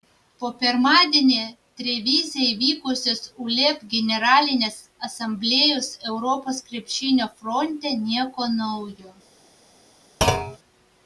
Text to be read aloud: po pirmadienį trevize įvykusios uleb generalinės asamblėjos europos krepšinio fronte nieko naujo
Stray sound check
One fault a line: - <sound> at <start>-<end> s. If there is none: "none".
- thud at 10.2-10.6 s